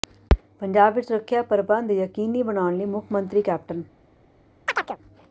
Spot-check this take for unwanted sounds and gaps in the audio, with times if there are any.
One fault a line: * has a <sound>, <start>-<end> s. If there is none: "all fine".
* has a chirp, 4.7-5.0 s